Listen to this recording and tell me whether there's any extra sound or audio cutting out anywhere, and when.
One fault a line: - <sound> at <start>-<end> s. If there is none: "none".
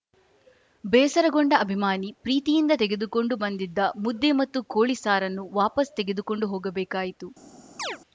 - chirp at 7.8-8.0 s